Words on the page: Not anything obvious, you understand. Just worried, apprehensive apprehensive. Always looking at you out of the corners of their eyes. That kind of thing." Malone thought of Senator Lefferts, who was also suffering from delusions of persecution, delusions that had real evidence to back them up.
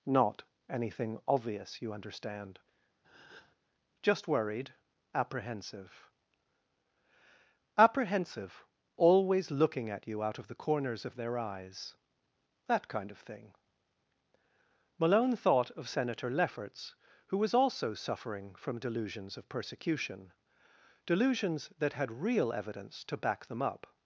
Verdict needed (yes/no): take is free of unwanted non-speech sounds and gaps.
no